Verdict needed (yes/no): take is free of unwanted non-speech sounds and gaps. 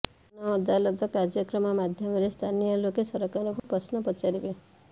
no